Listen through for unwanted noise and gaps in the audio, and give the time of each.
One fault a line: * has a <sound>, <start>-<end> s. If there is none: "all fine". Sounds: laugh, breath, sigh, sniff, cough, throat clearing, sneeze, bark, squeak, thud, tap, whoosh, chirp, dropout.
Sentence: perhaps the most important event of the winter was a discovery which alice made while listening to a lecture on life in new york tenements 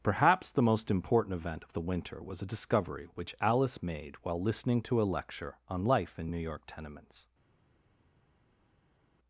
all fine